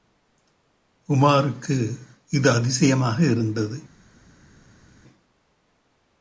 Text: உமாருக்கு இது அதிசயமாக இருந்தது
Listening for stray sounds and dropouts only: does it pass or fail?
pass